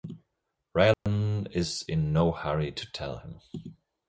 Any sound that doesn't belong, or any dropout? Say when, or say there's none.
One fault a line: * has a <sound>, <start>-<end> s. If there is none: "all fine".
* has a dropout, 0.9-1.1 s